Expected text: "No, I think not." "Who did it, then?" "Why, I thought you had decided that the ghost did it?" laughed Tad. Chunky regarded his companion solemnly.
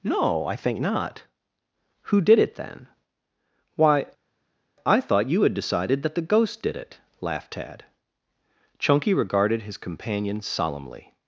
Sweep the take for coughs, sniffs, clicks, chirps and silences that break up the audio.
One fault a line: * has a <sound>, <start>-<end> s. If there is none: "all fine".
all fine